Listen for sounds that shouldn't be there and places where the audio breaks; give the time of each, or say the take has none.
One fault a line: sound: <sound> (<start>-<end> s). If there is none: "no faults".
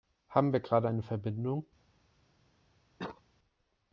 sound: cough (3.0-3.2 s)